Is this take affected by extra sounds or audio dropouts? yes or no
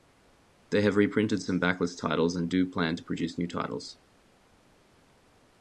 no